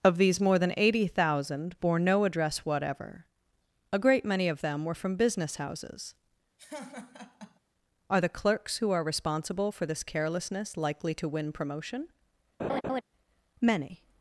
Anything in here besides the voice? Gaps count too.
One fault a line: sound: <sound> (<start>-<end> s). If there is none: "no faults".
sound: laugh (6.6-7.6 s)
sound: laugh (12.6-13.0 s)